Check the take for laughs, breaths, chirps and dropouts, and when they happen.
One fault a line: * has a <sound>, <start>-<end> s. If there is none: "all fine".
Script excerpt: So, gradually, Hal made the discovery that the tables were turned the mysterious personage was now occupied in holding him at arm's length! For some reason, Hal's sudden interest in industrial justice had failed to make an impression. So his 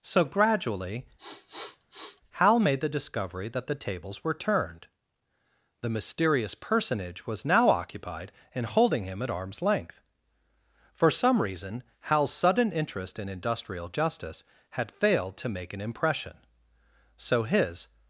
* has a sniff, 1.2-2.2 s